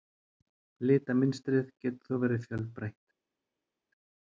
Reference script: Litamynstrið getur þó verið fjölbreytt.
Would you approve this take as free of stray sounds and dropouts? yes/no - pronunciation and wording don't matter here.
yes